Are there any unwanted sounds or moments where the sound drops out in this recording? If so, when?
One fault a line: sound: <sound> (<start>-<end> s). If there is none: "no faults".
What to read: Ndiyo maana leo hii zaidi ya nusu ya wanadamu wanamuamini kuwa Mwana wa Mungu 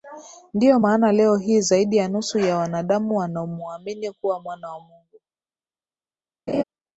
sound: laugh (6.5-6.6 s)